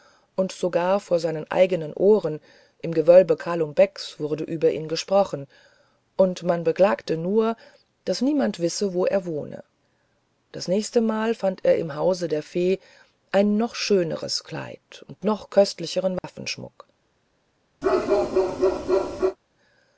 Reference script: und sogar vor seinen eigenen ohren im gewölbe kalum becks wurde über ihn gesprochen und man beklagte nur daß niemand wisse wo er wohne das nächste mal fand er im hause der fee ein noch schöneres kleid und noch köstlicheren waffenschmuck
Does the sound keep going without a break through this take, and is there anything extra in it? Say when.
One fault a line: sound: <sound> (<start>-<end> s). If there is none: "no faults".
sound: dropout (16.2-16.2 s)
sound: bark (17.8-19.4 s)